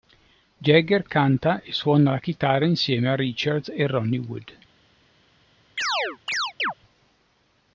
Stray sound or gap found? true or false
true